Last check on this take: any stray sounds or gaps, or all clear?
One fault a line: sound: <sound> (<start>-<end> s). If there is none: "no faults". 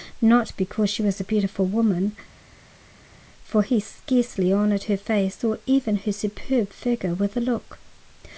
no faults